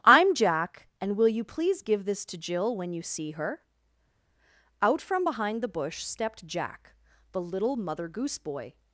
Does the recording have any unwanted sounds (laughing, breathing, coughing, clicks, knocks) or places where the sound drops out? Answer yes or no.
no